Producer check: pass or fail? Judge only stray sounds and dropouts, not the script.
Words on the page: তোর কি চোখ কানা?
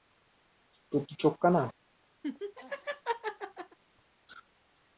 fail